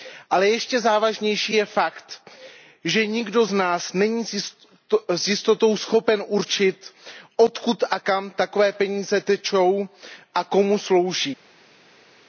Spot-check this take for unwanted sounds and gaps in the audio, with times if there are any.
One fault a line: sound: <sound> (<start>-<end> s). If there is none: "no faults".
no faults